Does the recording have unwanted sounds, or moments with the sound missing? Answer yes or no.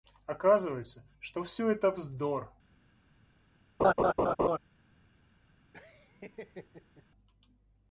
yes